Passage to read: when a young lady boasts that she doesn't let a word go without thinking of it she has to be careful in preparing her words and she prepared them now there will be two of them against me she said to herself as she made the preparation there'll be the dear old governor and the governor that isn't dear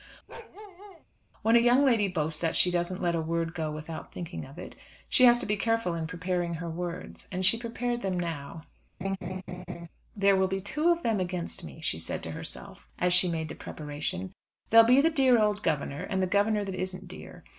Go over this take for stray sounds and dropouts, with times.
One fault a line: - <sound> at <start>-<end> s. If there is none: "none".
- bark at 0.3-1.0 s
- laugh at 9.0-9.9 s